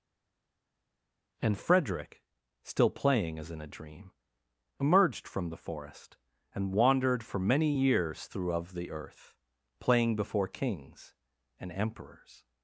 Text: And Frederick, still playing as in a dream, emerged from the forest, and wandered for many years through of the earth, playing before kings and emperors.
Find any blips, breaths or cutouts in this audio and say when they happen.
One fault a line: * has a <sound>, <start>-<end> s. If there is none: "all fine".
all fine